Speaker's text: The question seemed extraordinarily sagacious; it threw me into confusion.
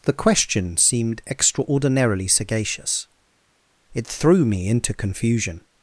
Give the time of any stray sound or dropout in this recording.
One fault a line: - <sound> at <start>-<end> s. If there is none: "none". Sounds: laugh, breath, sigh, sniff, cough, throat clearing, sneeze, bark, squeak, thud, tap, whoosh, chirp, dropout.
none